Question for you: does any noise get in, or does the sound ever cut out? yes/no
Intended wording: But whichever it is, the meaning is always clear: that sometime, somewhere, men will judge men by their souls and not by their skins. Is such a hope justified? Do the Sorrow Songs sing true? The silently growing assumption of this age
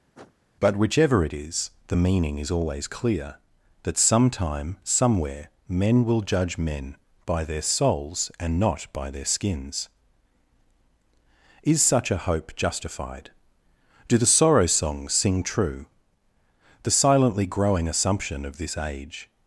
yes